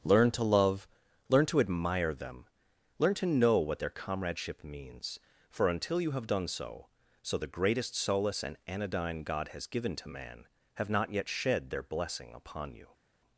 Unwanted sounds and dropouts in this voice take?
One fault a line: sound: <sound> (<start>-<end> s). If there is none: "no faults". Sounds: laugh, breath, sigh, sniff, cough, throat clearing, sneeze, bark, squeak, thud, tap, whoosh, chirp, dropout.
no faults